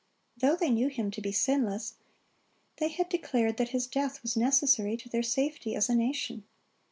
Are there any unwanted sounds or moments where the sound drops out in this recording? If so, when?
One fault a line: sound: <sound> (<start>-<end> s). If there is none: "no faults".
no faults